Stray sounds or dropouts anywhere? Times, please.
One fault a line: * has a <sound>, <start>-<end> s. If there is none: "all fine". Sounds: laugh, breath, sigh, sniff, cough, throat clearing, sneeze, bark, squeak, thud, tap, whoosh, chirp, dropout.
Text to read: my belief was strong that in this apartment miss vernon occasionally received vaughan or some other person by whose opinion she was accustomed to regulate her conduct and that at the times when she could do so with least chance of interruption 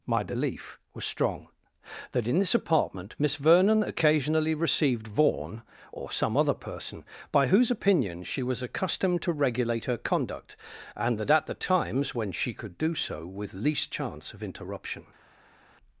all fine